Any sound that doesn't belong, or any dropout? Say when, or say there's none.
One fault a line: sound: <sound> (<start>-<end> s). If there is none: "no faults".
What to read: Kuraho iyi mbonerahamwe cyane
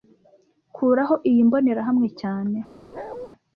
sound: bark (2.9-3.3 s)